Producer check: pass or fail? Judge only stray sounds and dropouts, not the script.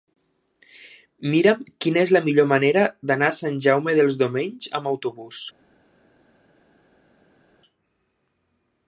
pass